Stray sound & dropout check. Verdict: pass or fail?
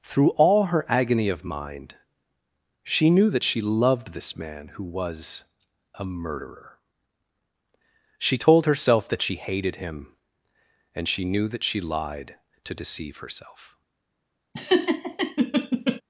fail